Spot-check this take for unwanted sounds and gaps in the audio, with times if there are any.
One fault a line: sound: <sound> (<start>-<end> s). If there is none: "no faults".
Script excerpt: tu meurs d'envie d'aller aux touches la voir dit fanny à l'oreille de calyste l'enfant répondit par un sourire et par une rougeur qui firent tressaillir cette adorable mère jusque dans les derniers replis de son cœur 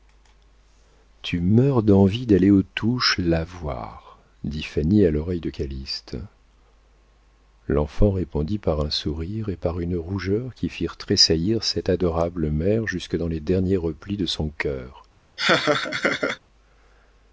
sound: laugh (15.4-16.4 s)